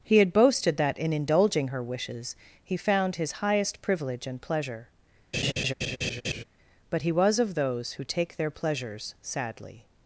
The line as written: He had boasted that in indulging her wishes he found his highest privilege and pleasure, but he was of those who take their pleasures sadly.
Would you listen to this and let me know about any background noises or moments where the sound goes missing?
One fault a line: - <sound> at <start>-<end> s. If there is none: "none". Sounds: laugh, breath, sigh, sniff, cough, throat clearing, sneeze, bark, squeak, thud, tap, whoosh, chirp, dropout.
- laugh at 5.3-6.4 s